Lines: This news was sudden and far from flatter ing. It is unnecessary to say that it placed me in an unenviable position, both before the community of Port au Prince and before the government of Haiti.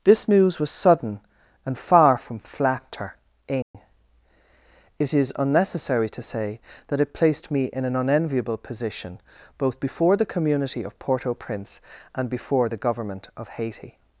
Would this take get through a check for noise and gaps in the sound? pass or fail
fail